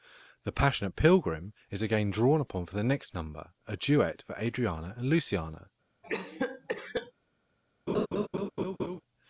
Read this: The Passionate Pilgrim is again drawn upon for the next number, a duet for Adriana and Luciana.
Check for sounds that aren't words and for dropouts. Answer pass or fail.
fail